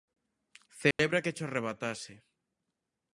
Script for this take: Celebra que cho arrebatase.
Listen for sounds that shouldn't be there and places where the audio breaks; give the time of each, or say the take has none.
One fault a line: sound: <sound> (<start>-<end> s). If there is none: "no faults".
sound: dropout (0.9-1.0 s)